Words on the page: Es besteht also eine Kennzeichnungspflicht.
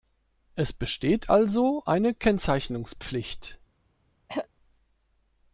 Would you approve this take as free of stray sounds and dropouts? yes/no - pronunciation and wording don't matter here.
no